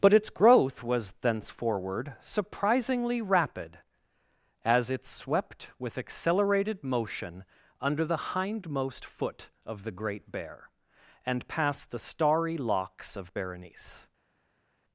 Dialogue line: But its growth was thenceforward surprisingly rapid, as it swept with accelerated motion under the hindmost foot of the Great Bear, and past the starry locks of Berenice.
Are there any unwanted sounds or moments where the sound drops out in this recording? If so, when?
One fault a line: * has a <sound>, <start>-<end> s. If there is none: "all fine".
all fine